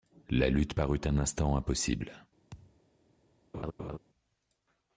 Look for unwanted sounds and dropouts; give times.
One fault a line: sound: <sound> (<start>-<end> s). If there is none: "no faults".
sound: thud (2.5-2.8 s)
sound: laugh (3.5-4.0 s)